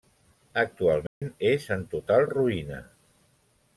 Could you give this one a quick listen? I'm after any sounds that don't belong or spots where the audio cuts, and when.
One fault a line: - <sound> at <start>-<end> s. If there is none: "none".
- dropout at 1.1-1.2 s